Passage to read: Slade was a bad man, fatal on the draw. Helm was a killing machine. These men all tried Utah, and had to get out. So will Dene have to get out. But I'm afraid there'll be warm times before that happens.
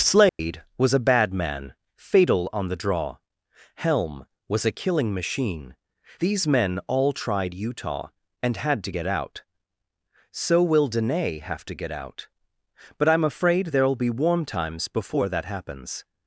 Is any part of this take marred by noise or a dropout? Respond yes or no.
yes